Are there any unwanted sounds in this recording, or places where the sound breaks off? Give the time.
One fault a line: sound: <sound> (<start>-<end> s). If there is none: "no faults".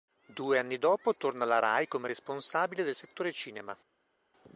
no faults